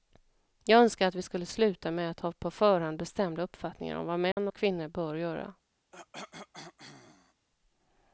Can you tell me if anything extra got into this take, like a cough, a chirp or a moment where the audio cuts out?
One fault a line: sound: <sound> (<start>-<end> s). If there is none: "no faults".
sound: dropout (4.3-4.4 s)
sound: cough (5.9-7.5 s)